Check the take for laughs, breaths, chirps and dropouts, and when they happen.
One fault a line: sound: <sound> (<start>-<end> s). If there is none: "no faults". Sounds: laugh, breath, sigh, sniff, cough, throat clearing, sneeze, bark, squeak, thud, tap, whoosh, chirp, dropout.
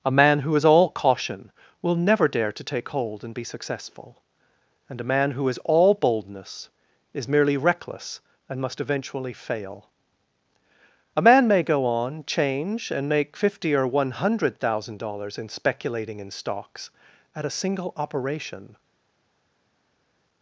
no faults